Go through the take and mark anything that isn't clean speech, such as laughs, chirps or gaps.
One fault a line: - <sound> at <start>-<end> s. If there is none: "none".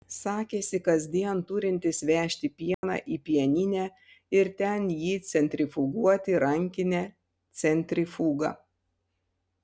- dropout at 2.7-2.8 s